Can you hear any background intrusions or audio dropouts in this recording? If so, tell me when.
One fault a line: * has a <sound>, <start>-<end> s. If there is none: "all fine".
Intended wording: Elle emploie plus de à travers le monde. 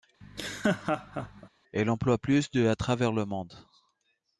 * has a laugh, 0.2-1.5 s